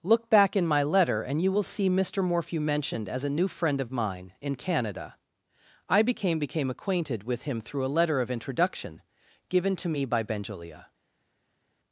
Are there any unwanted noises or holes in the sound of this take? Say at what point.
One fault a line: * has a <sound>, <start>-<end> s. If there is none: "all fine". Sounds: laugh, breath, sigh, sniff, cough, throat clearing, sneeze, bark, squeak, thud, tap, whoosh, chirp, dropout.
all fine